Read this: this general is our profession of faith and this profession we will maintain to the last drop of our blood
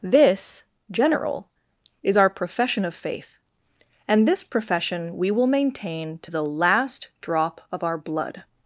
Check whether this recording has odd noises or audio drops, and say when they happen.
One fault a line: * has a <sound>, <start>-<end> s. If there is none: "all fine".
all fine